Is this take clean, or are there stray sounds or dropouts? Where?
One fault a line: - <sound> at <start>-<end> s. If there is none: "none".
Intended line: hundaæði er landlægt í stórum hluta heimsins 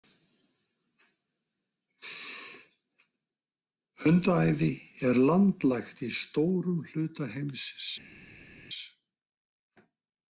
none